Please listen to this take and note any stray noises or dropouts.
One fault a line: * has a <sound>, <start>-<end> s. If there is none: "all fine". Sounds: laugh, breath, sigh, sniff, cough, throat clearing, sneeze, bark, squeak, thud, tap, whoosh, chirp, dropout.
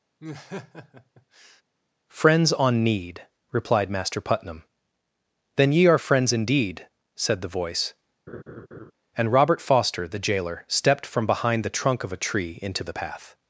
* has a laugh, 0.2-1.6 s
* has a laugh, 8.3-8.9 s